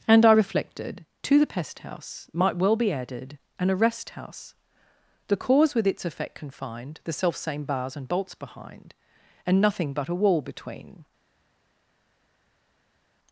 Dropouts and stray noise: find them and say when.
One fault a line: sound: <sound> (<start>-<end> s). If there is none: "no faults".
no faults